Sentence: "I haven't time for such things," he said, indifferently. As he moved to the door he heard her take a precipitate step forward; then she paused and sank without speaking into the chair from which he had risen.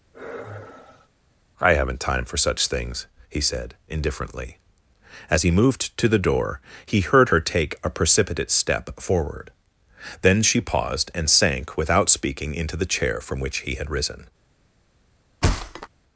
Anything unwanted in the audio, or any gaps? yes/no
yes